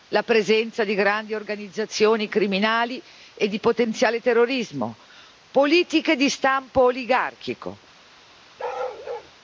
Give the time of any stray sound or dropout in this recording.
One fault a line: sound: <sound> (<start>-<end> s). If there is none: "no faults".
sound: bark (8.6-9.3 s)